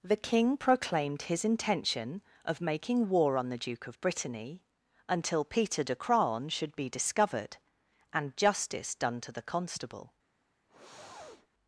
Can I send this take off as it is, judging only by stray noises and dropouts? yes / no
no